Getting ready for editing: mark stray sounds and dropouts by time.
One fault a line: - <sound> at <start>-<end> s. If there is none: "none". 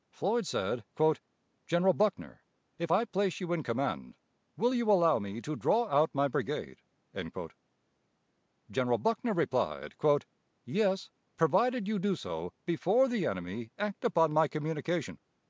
none